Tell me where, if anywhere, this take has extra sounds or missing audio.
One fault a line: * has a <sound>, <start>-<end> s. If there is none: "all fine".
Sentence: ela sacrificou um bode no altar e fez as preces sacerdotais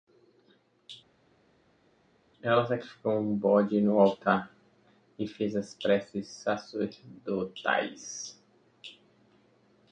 all fine